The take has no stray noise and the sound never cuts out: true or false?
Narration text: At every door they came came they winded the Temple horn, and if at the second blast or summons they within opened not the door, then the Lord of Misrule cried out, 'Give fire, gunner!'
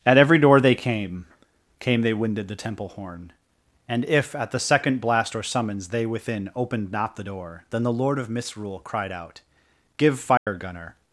false